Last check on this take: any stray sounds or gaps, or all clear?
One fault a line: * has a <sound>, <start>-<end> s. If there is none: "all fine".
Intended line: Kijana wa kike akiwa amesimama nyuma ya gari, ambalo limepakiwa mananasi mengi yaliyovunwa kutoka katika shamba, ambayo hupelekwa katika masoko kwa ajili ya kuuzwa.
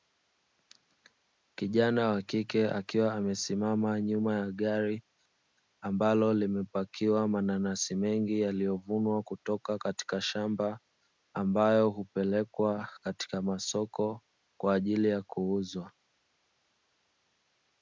all fine